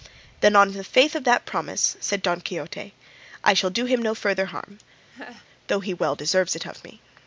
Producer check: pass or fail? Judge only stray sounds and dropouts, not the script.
fail